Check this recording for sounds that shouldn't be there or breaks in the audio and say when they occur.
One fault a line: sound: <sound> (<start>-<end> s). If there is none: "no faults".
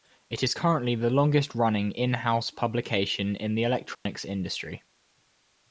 sound: dropout (3.9-4.1 s)